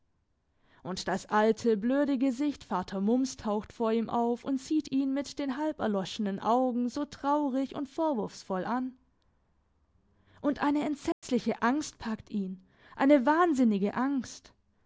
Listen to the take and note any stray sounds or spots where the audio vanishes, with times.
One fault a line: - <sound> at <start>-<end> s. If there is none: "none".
- dropout at 11.1-11.2 s